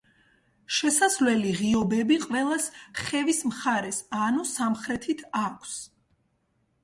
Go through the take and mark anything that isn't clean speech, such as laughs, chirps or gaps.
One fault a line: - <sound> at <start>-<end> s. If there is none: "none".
none